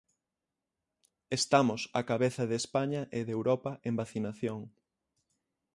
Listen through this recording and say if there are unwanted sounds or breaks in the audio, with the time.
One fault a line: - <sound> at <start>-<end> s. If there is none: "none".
none